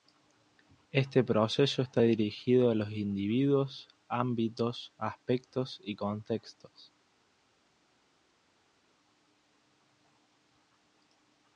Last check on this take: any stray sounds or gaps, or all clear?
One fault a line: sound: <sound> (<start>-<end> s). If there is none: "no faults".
no faults